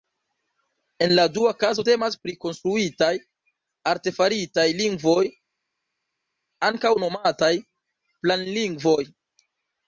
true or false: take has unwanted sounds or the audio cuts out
false